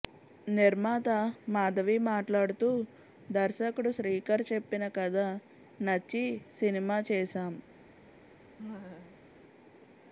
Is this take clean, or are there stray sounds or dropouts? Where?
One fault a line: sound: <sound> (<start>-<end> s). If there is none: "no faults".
sound: laugh (8.6-9.3 s)